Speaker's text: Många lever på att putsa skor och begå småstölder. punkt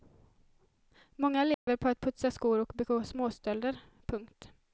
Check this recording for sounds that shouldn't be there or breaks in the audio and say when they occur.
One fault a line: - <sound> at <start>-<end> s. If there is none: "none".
- dropout at 1.5-1.7 s